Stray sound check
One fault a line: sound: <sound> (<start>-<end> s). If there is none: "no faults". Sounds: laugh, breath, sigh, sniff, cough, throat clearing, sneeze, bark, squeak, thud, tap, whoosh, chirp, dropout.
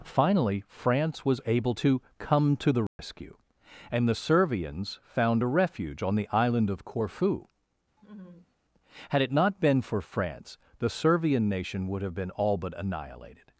sound: dropout (2.9-3.0 s)
sound: laugh (8.0-8.5 s)